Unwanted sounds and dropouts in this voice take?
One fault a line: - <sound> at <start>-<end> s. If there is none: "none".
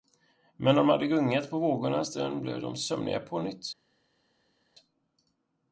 none